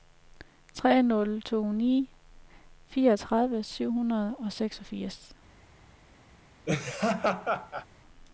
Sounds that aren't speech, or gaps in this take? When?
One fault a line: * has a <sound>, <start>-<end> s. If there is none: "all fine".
* has a laugh, 6.7-7.9 s